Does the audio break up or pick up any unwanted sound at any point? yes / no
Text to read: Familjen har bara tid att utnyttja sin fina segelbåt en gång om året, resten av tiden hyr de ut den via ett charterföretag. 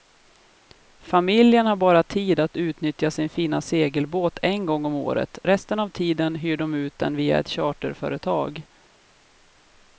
no